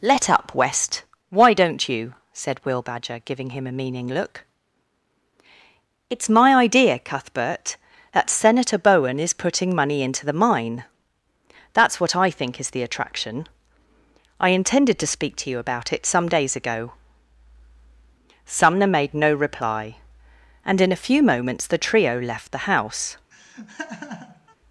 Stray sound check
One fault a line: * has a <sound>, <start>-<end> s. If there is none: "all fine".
* has a laugh, 23.3-24.6 s